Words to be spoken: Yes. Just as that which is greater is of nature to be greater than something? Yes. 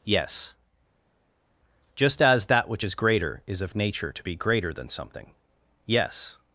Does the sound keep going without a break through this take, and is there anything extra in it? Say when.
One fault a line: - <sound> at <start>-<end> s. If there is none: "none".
none